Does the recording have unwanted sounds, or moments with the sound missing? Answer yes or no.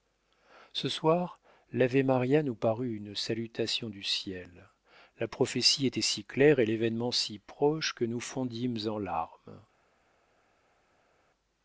no